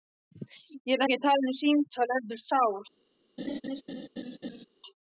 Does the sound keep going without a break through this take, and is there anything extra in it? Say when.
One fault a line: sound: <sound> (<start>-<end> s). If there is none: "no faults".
sound: laugh (3.4-4.7 s)